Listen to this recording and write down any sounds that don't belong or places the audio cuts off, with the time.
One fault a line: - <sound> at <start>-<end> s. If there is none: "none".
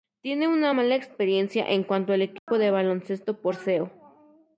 - dropout at 2.4-2.5 s